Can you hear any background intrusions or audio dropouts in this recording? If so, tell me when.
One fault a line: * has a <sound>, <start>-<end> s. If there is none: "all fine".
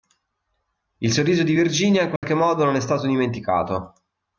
* has a dropout, 2.2-2.2 s